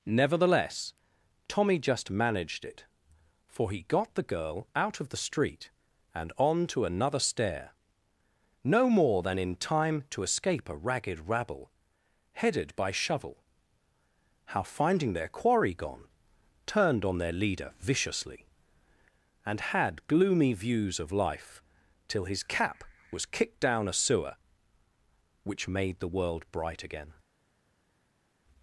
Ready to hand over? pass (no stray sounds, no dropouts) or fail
pass